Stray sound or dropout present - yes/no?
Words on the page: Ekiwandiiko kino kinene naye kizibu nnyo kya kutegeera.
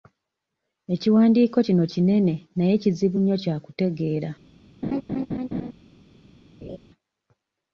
yes